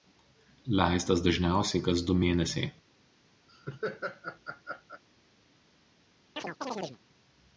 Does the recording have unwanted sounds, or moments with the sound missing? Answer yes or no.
yes